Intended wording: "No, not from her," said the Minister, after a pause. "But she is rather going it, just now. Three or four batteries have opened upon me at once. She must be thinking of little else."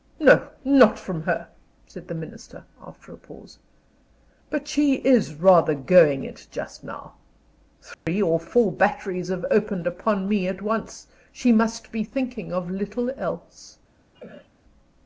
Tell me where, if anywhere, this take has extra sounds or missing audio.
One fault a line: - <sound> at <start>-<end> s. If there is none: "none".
- dropout at 7.9-8.1 s
- cough at 14.1-14.5 s